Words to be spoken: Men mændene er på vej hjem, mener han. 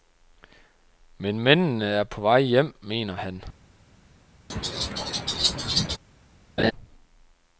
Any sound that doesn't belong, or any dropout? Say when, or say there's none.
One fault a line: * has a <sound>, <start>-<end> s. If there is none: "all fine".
* has a laugh, 4.5-6.0 s
* has a laugh, 6.6-6.7 s